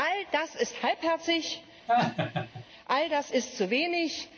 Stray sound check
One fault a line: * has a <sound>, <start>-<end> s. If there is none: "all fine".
* has a laugh, 1.9-2.7 s